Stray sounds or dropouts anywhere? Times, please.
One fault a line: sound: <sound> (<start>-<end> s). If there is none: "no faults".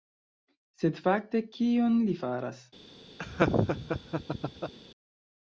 sound: laugh (3.2-4.7 s)